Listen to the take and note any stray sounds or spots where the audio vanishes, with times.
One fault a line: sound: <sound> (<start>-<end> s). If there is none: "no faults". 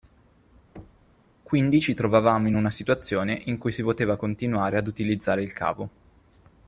sound: thud (0.7-1.1 s)